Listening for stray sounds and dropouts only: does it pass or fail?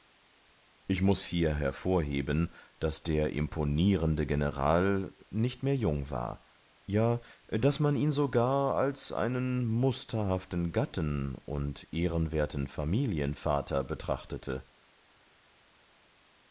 pass